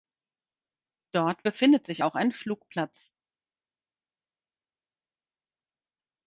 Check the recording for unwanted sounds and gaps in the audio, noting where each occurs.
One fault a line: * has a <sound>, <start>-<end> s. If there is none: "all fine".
all fine